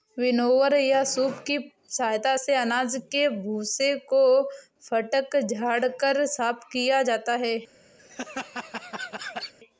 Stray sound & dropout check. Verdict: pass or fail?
fail